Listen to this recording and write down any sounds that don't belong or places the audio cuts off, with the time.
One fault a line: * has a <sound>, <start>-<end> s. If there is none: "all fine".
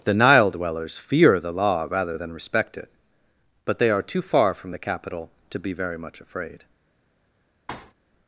* has a thud, 7.7-7.9 s